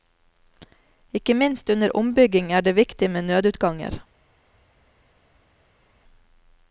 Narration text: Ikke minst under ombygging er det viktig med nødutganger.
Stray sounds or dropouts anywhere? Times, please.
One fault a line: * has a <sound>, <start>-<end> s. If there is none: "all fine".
all fine